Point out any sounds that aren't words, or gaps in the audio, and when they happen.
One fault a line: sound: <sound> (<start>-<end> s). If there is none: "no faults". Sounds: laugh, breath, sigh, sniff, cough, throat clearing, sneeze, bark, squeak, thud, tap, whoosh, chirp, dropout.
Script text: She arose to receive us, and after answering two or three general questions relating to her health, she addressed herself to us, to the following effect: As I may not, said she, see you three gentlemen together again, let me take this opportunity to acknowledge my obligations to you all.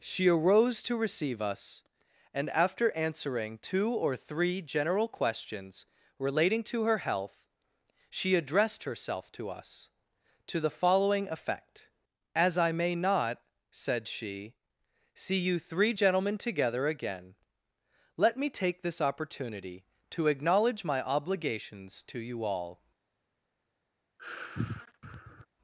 sound: sigh (24.2-25.5 s)